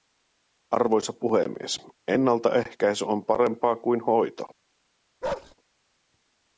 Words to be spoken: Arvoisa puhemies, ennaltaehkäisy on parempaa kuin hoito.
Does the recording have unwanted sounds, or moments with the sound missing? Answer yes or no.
yes